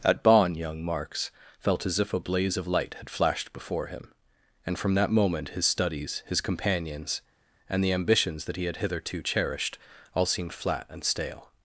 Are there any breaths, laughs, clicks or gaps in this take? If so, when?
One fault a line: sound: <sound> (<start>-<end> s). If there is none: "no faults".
no faults